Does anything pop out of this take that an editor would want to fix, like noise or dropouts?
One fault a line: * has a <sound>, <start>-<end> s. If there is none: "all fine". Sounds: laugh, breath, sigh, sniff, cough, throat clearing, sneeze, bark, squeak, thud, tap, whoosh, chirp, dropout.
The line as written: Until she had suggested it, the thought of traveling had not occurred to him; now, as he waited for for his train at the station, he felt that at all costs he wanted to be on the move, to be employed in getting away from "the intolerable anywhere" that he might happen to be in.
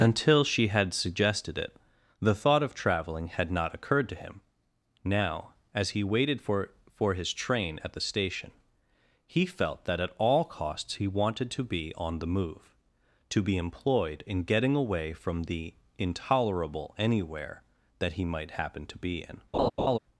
* has a laugh, 19.5-20.0 s